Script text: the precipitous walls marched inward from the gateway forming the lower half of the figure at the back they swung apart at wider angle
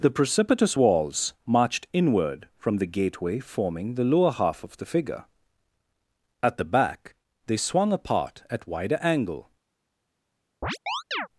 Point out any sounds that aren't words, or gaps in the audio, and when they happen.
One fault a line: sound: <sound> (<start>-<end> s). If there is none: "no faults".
sound: chirp (10.6-11.3 s)